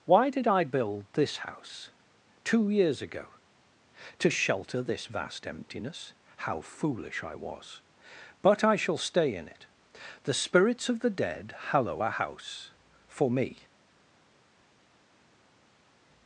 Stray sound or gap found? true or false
false